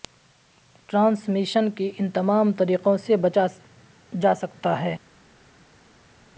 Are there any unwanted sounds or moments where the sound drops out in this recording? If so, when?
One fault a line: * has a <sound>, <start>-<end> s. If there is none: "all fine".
all fine